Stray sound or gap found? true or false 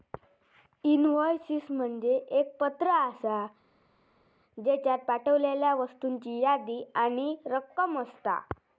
false